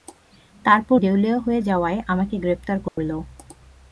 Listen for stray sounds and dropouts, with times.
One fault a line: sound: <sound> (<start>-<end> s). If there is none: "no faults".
sound: dropout (2.9-3.0 s)